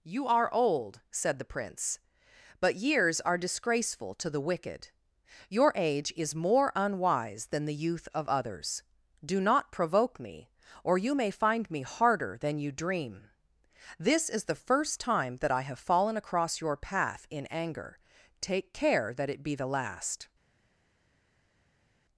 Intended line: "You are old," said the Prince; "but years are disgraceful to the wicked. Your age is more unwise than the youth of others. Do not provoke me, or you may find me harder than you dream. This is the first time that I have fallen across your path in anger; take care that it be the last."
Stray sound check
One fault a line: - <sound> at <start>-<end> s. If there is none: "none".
none